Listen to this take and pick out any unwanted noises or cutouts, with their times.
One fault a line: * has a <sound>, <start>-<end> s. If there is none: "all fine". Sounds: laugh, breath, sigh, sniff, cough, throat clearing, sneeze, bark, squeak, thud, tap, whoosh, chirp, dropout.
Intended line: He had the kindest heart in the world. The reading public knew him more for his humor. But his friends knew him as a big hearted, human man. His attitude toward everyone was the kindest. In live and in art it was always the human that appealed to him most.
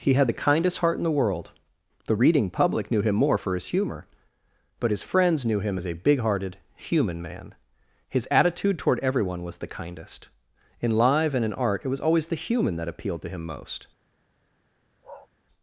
* has a bark, 15.0-15.3 s